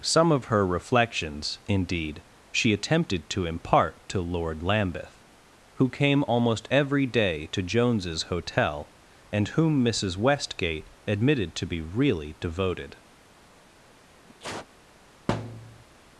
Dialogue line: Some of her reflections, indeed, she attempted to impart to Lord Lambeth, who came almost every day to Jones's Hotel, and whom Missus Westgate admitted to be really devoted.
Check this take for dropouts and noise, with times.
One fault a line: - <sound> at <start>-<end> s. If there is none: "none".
- sneeze at 14.3-14.7 s
- thud at 15.3-15.8 s